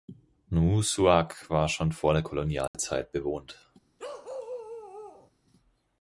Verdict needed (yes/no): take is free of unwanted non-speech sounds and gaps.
no